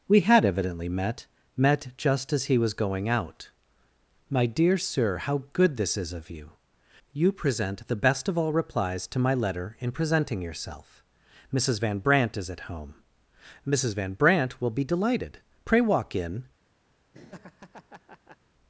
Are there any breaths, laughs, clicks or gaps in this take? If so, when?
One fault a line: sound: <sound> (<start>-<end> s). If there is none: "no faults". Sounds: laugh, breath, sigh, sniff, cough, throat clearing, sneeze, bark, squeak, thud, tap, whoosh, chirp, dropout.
sound: laugh (17.1-18.4 s)